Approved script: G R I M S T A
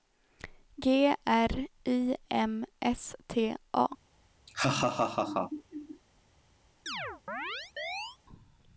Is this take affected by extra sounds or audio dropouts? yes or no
yes